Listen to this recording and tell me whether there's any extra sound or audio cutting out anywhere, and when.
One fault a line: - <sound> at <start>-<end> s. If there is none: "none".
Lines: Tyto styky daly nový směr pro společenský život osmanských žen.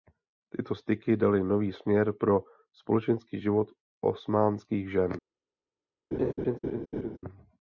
- laugh at 6.1-7.2 s